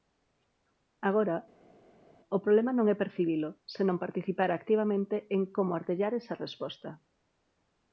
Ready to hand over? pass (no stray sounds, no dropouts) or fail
pass